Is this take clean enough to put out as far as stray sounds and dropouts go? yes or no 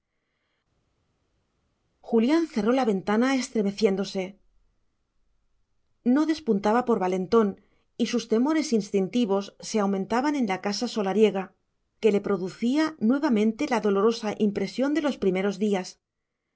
yes